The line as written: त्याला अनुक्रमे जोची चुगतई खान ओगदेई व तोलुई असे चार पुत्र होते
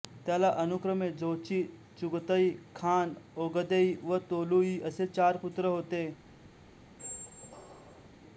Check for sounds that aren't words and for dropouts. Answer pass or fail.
fail